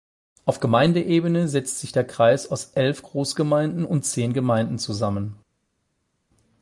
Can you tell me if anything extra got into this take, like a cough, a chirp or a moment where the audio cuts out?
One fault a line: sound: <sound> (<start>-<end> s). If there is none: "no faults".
no faults